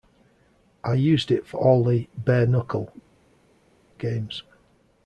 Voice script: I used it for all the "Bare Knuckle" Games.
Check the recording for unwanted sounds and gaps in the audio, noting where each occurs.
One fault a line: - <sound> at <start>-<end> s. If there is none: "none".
none